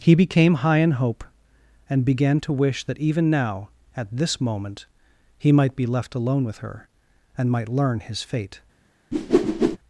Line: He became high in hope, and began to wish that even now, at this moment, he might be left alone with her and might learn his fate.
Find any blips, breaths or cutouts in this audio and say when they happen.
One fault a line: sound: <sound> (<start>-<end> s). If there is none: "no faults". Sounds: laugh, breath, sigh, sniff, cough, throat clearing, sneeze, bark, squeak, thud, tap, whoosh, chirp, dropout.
sound: whoosh (9.1-9.8 s)